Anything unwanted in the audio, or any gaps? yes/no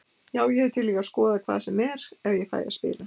no